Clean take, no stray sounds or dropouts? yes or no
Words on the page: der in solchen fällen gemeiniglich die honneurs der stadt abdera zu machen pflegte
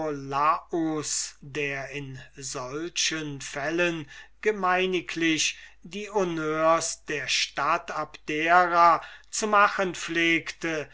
yes